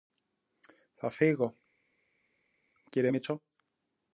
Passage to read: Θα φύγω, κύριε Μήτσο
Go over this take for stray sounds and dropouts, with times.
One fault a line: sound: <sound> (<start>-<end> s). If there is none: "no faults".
no faults